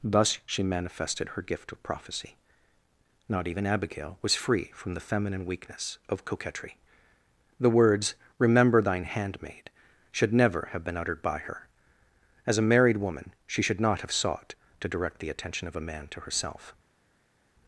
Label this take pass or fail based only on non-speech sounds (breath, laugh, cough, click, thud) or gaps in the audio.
pass